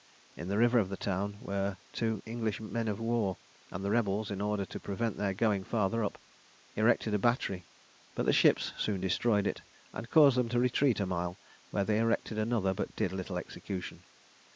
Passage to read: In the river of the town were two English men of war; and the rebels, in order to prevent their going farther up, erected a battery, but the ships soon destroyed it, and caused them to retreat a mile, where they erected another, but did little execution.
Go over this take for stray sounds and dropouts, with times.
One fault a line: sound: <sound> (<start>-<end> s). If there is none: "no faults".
no faults